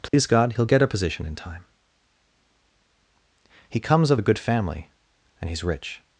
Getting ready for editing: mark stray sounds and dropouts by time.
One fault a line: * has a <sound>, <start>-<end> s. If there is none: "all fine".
* has a dropout, 0.1-0.1 s